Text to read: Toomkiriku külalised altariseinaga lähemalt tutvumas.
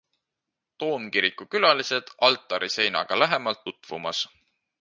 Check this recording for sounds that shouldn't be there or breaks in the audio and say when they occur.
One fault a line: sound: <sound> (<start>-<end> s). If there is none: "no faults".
no faults